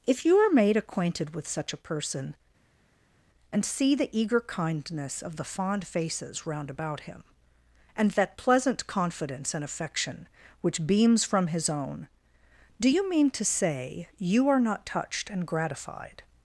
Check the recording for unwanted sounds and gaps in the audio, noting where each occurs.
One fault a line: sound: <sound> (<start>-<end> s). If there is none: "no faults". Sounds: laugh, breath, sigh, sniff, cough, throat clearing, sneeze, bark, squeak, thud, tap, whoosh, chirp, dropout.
no faults